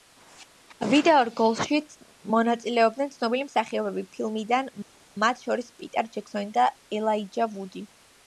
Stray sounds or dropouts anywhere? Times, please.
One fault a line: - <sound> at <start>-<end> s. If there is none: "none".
none